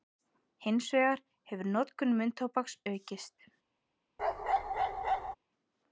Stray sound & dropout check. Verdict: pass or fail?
fail